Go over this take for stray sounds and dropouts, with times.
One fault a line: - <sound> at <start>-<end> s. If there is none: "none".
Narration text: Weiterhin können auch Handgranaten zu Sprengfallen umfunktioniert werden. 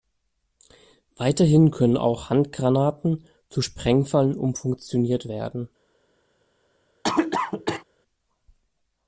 - cough at 7.0-7.8 s